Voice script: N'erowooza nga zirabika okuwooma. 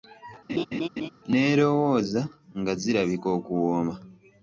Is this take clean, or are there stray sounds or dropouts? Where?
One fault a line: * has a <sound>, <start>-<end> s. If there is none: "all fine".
* has a laugh, 0.5-1.1 s